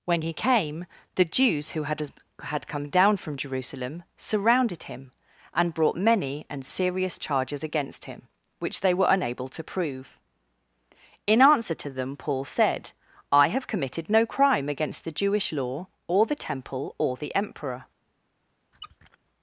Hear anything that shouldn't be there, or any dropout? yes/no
yes